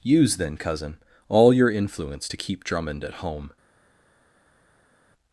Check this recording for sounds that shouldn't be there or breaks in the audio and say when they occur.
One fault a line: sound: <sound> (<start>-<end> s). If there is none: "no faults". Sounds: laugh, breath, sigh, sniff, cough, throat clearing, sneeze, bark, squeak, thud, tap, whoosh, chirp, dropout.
no faults